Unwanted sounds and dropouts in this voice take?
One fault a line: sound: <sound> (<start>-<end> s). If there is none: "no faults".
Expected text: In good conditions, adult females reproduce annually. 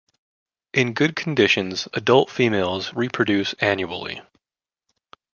no faults